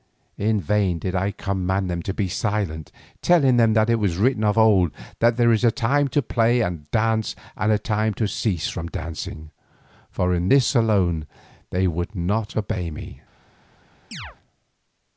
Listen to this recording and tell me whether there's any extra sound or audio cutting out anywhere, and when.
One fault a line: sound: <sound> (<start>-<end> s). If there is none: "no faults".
sound: chirp (14.1-14.4 s)